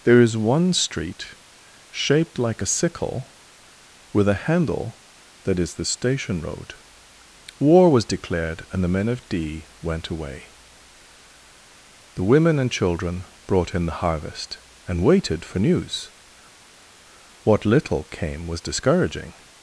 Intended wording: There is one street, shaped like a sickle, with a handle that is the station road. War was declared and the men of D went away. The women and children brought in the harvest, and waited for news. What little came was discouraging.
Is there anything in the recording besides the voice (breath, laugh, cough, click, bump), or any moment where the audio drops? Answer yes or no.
no